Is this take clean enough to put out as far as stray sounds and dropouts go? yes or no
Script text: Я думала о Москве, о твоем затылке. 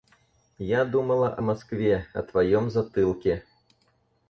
yes